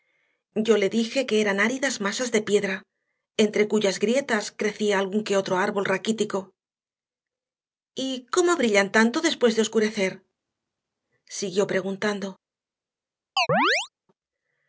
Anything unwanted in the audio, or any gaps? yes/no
yes